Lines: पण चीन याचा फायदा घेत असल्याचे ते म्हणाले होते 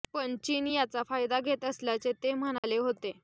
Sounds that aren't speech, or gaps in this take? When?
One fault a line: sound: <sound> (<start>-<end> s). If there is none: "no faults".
sound: dropout (2.6-2.6 s)